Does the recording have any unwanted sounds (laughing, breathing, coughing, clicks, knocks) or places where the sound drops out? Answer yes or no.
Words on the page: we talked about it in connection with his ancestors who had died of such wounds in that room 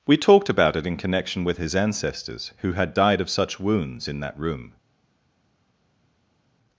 no